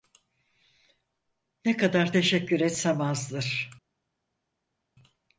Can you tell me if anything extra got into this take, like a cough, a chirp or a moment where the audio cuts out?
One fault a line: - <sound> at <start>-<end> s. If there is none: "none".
none